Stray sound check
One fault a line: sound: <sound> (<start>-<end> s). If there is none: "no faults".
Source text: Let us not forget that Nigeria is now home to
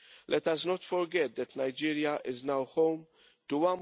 no faults